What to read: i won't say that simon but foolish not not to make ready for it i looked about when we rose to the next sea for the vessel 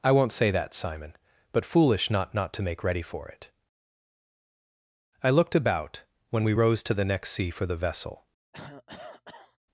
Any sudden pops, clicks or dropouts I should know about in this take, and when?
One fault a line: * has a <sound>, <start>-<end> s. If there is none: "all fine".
* has a cough, 8.5-9.6 s